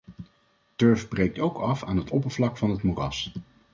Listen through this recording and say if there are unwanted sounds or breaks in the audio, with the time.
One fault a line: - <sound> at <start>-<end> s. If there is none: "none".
none